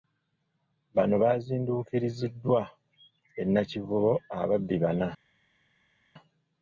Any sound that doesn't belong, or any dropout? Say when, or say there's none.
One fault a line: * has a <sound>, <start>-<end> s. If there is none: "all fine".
all fine